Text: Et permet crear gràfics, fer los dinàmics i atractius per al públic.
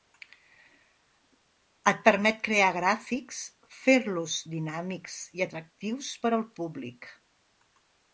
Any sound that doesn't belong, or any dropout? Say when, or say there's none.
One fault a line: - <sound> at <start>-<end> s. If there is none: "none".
none